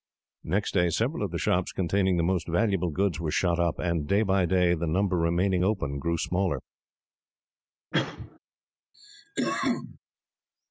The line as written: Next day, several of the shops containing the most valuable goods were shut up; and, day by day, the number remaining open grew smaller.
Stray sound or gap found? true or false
true